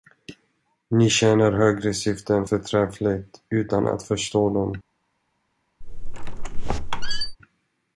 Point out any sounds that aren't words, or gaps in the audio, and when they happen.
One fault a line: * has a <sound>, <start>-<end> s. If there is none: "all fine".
* has a squeak, 5.8-7.4 s